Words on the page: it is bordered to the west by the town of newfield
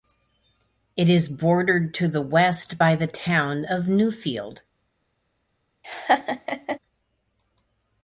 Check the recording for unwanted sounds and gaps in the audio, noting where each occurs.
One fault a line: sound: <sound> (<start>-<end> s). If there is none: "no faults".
sound: laugh (5.8-6.8 s)